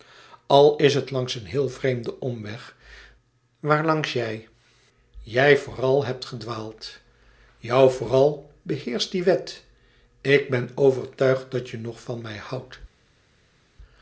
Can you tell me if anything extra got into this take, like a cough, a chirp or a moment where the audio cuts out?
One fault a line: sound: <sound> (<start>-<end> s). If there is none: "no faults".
no faults